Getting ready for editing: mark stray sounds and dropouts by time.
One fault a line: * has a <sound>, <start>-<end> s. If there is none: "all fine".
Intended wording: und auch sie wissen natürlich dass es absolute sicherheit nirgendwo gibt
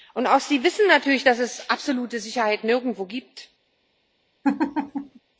* has a laugh, 4.4-5.2 s